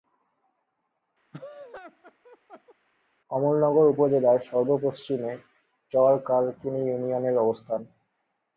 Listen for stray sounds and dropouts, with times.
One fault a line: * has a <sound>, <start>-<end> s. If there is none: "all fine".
* has a laugh, 1.3-2.8 s